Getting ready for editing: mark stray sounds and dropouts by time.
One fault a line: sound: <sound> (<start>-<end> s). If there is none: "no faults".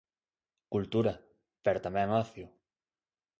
no faults